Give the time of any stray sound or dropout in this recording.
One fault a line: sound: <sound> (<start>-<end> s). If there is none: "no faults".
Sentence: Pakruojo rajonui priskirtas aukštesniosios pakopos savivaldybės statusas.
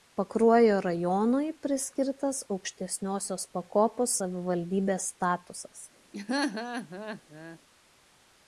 sound: laugh (6.1-7.6 s)